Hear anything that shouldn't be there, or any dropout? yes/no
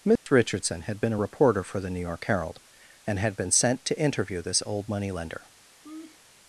yes